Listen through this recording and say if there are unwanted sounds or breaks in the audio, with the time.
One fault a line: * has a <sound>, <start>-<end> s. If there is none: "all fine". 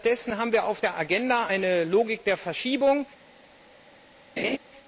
* has a laugh, 4.4-4.6 s